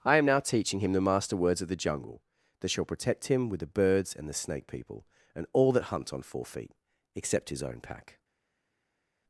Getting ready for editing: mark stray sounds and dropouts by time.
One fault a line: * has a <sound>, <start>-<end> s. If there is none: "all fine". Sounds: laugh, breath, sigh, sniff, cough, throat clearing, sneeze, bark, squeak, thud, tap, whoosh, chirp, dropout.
all fine